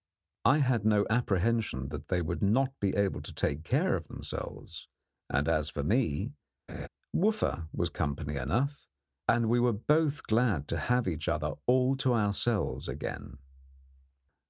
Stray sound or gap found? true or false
true